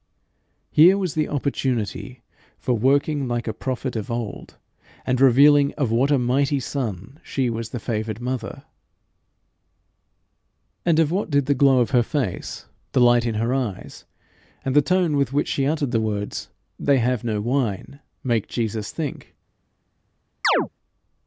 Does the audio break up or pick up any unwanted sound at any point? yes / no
yes